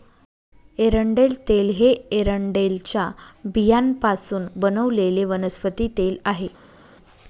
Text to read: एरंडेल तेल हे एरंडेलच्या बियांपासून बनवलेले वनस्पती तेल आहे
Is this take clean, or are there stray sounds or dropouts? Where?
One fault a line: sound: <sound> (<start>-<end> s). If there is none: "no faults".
no faults